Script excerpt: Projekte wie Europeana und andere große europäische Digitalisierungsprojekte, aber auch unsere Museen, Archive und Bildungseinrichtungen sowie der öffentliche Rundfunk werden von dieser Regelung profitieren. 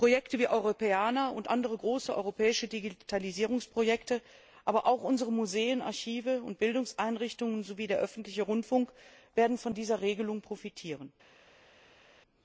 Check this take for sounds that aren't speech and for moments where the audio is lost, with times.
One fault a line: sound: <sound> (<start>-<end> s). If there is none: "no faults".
no faults